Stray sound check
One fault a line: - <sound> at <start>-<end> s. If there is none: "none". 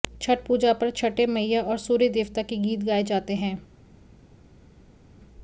none